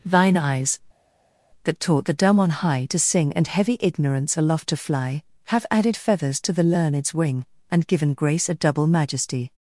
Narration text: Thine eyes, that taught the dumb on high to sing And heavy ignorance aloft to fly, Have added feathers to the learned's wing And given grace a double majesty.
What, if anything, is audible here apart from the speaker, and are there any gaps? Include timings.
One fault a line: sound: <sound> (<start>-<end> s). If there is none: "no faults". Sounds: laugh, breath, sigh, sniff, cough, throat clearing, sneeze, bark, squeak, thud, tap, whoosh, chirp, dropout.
no faults